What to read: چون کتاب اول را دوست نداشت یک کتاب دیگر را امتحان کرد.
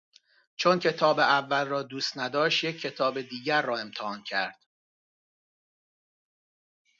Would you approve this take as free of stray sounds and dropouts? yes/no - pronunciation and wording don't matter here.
yes